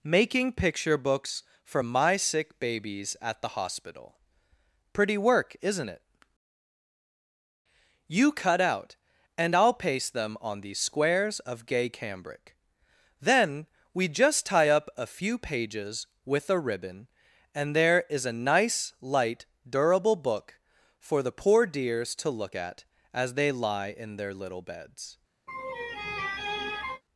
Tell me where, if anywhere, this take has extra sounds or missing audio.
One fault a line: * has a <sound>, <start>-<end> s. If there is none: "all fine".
* has a laugh, 25.5-27.0 s